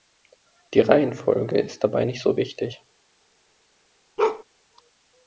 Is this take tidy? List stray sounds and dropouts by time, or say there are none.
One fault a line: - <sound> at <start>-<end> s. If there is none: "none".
- bark at 4.2-4.4 s